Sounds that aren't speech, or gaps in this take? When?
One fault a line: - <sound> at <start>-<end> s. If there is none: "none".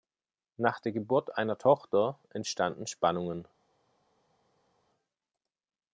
none